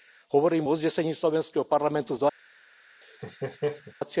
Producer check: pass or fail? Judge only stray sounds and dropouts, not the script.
fail